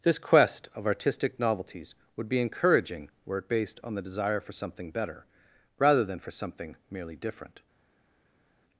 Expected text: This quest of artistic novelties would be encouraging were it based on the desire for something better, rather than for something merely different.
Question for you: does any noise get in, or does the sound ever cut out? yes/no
no